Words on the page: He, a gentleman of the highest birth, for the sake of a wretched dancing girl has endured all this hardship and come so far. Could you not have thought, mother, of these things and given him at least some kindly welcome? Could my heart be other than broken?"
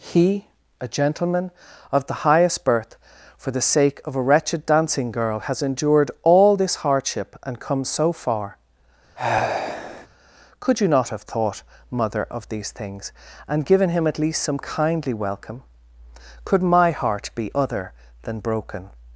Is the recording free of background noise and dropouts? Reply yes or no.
no